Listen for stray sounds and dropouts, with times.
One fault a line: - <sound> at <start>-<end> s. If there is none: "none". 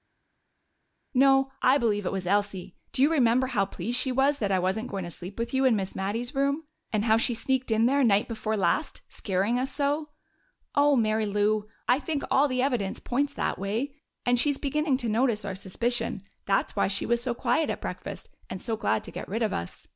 none